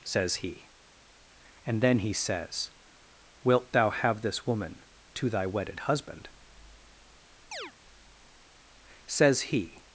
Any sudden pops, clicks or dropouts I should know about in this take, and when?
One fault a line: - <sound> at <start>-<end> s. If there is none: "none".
- chirp at 7.5-7.7 s